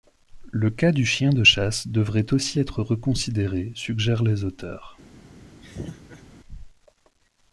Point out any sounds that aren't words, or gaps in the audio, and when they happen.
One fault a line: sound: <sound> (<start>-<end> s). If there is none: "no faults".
sound: laugh (5.6-6.2 s)